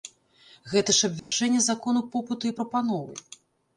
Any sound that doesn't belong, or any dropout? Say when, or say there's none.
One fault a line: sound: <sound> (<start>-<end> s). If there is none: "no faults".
sound: dropout (1.2-1.3 s)